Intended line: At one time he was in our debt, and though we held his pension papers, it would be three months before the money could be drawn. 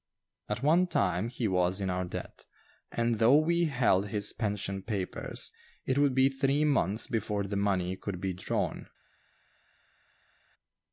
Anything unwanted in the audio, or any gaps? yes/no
no